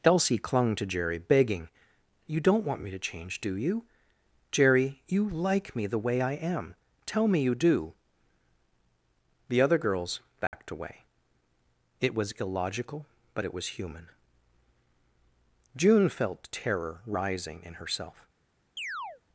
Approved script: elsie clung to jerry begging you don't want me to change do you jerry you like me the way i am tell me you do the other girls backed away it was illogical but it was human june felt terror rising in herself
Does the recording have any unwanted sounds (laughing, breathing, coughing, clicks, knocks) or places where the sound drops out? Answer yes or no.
yes